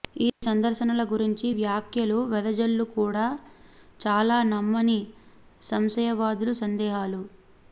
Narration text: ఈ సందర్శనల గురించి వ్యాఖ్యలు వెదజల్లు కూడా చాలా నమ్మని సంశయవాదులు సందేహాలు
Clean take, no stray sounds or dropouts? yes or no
yes